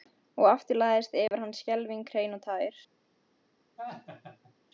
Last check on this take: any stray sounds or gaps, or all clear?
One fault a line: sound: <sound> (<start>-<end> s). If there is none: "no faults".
sound: dropout (1.3-1.3 s)
sound: laugh (3.8-4.5 s)